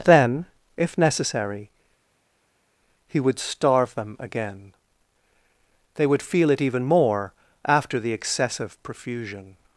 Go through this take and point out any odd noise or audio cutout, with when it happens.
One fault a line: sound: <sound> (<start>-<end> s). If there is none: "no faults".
no faults